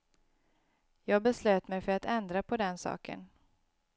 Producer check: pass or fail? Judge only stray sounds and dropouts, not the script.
pass